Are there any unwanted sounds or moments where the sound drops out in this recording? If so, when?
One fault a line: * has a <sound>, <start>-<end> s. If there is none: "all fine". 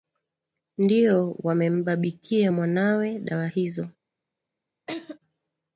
* has a laugh, 4.9-5.2 s